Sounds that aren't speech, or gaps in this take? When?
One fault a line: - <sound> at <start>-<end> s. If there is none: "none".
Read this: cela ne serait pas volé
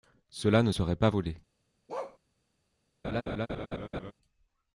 - bark at 1.9-2.2 s
- laugh at 3.0-4.1 s